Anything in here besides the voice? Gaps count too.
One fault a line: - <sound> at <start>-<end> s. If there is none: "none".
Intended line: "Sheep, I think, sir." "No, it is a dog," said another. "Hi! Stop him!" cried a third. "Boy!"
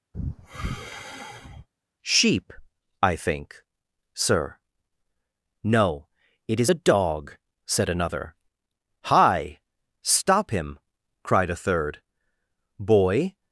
- sigh at 0.1-1.7 s